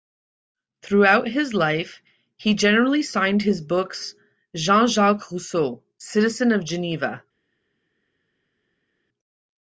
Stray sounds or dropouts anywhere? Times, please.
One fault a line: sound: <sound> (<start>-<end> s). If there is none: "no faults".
no faults